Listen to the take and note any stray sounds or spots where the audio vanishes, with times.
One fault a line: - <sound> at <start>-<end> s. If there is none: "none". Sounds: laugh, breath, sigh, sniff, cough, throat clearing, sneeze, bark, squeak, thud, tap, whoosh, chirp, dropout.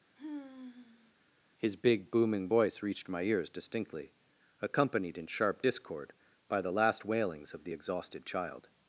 - sigh at 0.2-1.1 s